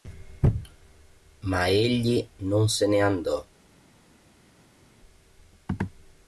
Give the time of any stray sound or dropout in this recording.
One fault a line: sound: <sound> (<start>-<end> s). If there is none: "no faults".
no faults